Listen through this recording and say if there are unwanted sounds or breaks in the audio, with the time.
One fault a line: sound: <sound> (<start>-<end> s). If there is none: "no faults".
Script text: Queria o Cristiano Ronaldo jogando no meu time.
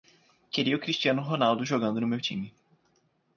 no faults